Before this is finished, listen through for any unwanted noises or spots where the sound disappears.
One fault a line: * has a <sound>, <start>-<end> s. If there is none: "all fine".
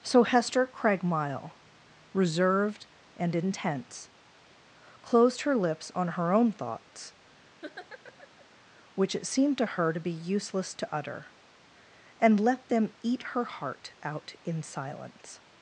* has a laugh, 7.6-8.5 s